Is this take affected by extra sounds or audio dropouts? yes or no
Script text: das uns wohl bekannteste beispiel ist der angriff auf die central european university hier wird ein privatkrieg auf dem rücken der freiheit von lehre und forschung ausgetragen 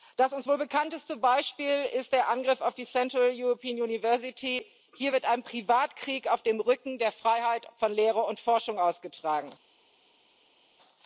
no